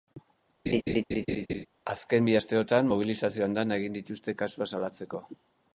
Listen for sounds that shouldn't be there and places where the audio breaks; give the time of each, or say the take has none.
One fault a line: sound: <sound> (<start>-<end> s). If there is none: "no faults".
sound: laugh (0.7-1.7 s)